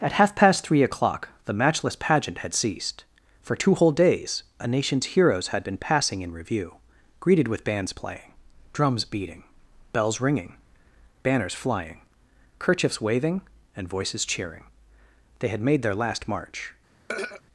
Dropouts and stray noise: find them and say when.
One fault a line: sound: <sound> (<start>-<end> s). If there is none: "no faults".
sound: throat clearing (17.1-17.4 s)